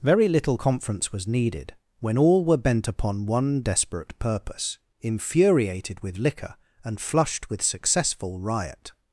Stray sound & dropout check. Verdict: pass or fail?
pass